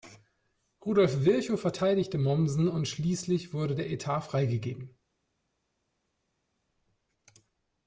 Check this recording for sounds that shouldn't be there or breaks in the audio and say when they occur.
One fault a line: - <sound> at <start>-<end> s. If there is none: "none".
none